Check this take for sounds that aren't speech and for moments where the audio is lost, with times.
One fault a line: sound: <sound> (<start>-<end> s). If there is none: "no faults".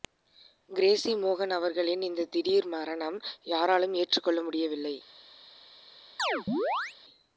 sound: chirp (6.2-7.0 s)